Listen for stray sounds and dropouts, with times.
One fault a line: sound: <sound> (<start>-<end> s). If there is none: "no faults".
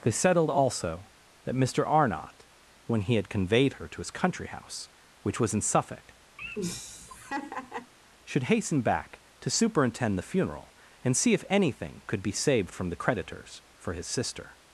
sound: laugh (6.4-7.9 s)